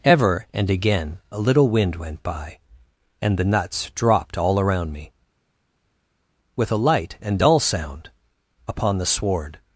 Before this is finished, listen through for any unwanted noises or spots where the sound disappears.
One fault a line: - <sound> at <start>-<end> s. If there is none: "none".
none